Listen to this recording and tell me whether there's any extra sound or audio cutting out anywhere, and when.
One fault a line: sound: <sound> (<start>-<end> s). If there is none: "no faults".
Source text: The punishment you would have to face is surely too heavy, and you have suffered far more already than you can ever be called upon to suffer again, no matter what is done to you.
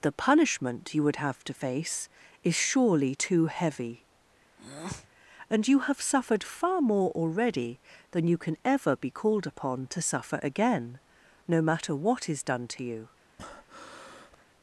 sound: breath (4.6-5.1 s)
sound: breath (13.4-14.4 s)